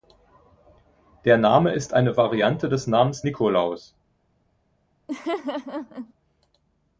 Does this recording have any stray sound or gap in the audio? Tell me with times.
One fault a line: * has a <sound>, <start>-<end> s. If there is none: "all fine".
* has a laugh, 5.1-6.1 s